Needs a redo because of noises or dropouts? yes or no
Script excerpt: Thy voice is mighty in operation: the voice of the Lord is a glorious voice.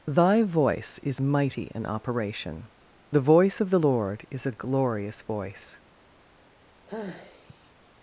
yes